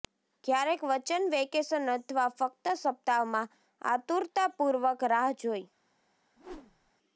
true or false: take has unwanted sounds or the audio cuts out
true